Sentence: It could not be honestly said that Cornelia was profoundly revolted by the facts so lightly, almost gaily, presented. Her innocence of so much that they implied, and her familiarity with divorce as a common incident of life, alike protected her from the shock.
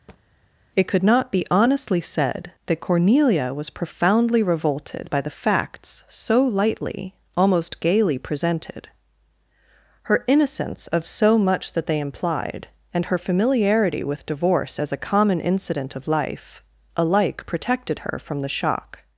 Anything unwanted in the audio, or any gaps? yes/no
yes